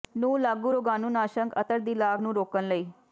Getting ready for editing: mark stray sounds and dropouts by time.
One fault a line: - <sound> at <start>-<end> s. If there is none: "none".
none